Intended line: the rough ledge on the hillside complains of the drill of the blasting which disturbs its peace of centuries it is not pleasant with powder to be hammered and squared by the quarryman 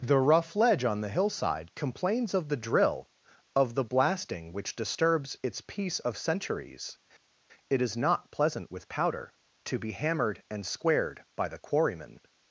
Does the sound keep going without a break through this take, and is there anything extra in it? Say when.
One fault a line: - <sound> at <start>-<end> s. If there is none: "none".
none